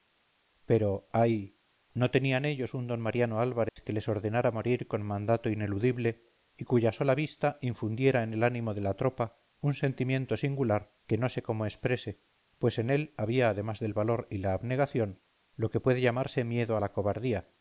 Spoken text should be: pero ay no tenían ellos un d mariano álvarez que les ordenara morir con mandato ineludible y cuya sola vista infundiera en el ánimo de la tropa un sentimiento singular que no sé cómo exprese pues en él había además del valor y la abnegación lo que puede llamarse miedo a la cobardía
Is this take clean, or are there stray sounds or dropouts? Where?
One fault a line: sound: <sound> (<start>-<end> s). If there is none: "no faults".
sound: dropout (3.7-3.8 s)